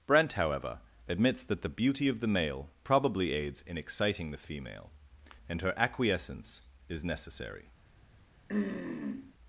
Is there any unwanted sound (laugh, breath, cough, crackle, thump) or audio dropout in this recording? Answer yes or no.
yes